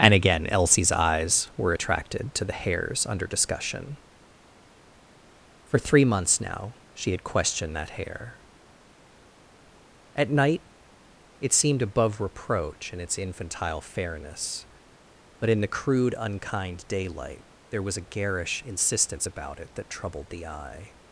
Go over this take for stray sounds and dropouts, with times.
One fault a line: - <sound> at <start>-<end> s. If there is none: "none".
none